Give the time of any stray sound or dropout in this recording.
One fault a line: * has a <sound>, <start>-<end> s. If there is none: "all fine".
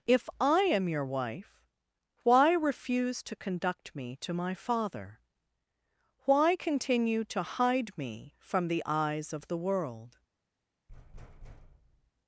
* has a thud, 10.9-12.1 s